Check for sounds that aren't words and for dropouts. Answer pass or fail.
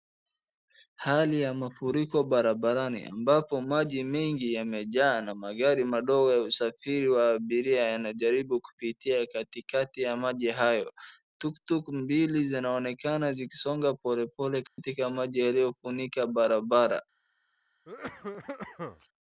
fail